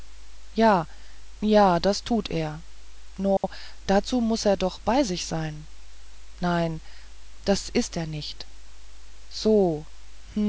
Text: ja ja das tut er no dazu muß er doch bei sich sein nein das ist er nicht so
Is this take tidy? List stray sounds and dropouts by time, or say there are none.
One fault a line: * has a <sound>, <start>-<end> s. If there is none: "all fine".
* has a dropout, 3.4-3.4 s